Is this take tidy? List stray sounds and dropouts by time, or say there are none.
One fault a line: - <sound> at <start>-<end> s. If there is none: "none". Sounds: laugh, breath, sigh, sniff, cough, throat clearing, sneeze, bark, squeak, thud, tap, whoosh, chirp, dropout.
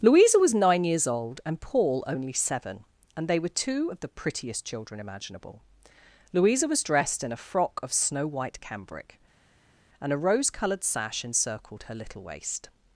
none